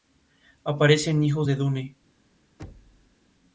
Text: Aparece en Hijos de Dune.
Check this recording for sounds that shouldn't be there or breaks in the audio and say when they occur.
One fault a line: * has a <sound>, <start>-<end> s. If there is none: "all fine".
* has a thud, 2.6-3.2 s